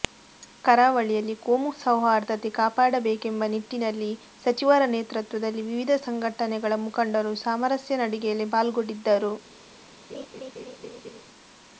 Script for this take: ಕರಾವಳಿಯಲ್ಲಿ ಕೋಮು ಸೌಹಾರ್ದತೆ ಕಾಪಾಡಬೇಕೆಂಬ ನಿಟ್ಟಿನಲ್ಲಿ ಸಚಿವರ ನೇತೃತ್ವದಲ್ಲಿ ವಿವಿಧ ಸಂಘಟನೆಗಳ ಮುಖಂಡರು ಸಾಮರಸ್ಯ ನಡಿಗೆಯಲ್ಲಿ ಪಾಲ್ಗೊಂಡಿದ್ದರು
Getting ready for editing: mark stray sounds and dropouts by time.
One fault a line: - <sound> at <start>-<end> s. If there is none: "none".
- laugh at 10.1-11.2 s